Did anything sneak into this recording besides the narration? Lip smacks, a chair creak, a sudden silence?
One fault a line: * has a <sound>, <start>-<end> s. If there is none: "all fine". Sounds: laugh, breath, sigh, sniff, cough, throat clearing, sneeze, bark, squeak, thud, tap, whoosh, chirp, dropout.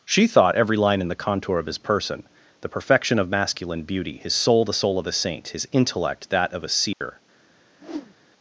* has a dropout, 6.9-7.0 s
* has a whoosh, 7.8-8.2 s